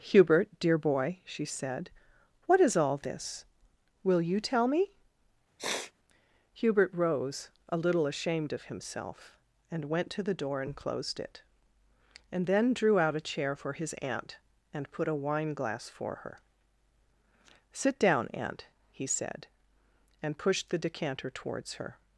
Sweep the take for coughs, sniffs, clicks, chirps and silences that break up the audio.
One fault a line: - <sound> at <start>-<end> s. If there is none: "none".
- sniff at 5.6-5.9 s